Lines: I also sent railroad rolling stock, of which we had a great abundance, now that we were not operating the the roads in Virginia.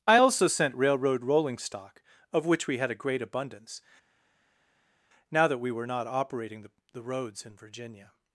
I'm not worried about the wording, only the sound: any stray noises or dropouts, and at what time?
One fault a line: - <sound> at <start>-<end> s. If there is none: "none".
none